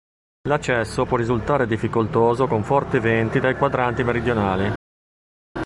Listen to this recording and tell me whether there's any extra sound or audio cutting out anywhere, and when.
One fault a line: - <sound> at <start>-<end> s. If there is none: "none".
none